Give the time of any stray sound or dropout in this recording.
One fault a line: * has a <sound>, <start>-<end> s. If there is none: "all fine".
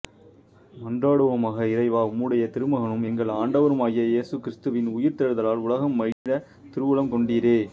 * has a dropout, 6.1-6.3 s